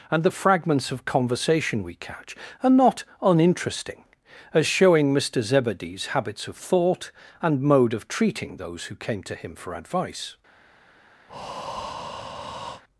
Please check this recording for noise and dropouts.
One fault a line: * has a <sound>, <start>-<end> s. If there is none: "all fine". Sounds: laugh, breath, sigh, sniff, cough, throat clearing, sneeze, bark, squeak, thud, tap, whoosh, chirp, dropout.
* has a breath, 11.3-12.8 s